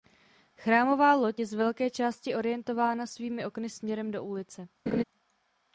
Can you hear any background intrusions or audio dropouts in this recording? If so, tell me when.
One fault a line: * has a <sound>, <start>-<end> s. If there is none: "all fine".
* has a laugh, 4.9-5.0 s